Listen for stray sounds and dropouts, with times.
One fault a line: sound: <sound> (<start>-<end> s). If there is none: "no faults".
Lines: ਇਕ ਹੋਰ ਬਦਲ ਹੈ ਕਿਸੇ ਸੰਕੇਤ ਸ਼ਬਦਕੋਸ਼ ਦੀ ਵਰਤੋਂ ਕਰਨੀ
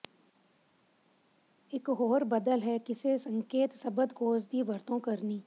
no faults